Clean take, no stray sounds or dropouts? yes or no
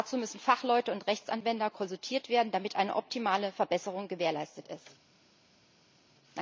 yes